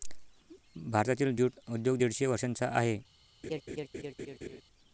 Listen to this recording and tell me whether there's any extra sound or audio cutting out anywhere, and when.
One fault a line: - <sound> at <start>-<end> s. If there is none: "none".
- laugh at 3.4-4.6 s